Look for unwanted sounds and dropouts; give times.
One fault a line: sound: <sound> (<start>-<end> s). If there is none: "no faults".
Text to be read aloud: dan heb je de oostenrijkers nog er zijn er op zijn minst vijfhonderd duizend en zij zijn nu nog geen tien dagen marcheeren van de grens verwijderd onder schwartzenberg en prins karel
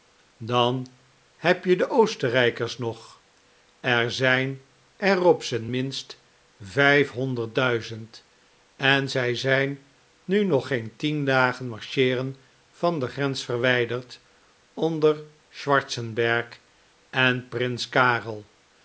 no faults